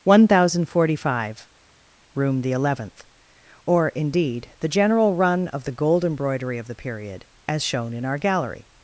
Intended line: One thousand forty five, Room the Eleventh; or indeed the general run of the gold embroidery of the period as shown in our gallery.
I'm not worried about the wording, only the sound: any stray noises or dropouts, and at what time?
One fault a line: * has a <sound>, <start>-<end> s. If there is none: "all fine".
all fine